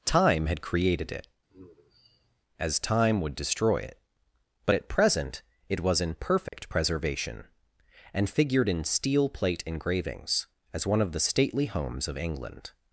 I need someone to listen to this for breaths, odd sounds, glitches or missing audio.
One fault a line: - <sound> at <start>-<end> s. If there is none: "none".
- sigh at 1.5-2.4 s
- dropout at 6.5-6.5 s